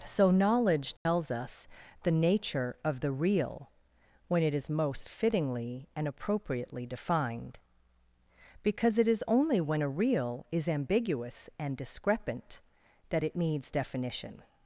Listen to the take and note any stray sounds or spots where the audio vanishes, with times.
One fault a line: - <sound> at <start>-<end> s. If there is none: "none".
- dropout at 1.0-1.1 s